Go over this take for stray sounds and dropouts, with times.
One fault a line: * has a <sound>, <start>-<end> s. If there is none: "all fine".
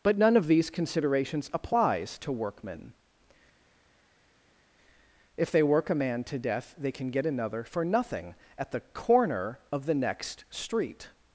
all fine